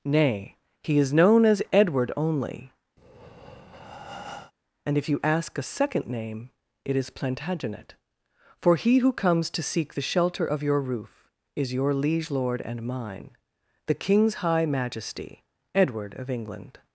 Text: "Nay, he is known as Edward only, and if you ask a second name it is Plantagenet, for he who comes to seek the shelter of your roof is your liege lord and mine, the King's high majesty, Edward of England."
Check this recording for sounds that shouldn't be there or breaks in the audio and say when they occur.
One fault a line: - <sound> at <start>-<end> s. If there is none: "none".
- breath at 3.0-4.5 s